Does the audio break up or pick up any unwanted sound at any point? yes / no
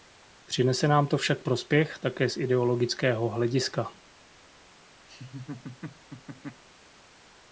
yes